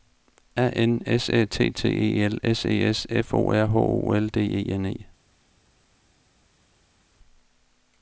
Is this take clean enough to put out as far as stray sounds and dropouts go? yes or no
yes